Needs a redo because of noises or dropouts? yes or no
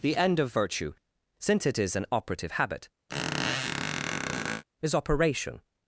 yes